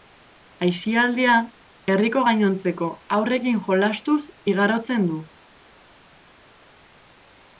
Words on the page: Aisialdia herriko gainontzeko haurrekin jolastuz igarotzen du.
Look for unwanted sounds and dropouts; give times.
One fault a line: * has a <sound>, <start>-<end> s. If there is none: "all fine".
all fine